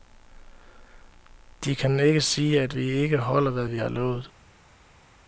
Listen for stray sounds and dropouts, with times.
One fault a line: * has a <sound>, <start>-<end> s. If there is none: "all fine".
all fine